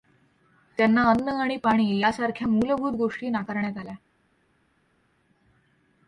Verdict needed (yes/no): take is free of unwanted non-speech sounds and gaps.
yes